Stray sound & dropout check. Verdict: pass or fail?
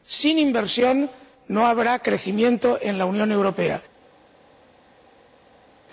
pass